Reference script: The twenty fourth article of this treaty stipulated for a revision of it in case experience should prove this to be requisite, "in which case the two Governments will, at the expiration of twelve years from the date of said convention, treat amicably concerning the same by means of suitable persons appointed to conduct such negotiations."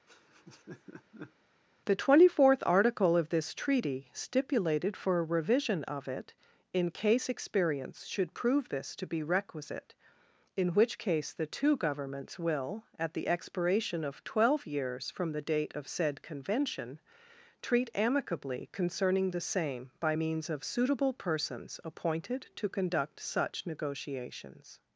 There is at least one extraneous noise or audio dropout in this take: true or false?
true